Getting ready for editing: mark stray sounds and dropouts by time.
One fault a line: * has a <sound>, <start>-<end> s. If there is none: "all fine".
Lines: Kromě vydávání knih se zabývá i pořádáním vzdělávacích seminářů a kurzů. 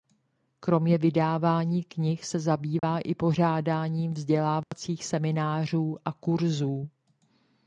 * has a dropout, 2.8-2.8 s
* has a dropout, 4.6-4.7 s